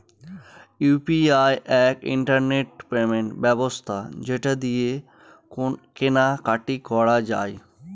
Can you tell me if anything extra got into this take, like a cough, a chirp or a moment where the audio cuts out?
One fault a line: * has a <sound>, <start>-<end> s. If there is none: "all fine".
all fine